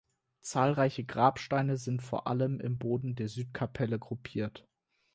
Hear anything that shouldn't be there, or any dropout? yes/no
no